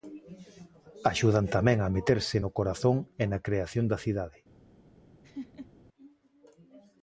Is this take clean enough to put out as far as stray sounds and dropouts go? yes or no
no